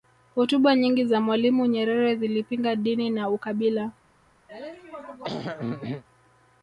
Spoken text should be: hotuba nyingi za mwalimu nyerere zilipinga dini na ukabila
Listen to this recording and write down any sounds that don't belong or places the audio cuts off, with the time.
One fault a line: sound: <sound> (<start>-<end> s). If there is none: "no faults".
sound: throat clearing (4.5-6.0 s)